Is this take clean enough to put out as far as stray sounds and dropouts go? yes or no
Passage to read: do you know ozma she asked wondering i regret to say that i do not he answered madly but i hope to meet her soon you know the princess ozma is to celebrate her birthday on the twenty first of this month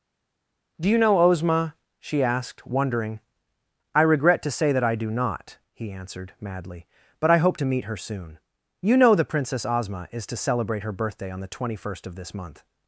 yes